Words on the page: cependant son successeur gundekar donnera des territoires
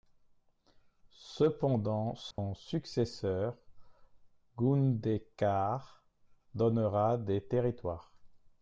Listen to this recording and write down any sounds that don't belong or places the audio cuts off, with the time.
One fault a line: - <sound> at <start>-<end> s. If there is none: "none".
- dropout at 2.3-2.4 s